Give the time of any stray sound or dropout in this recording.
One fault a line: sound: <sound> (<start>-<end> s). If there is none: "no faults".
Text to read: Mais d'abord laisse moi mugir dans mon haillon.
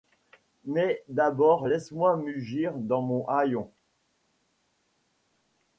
no faults